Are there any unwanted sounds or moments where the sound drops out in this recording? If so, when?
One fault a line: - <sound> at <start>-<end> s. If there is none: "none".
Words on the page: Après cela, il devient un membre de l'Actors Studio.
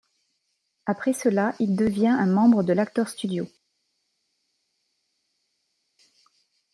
none